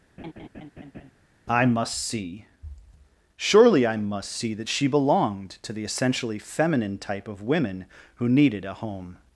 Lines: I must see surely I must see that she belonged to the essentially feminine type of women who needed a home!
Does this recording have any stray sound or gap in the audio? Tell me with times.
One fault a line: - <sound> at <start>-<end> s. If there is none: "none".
- laugh at 0.2-1.1 s